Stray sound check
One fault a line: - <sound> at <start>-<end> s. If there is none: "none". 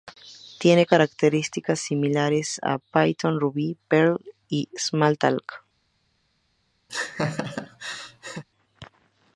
- laugh at 6.9-8.4 s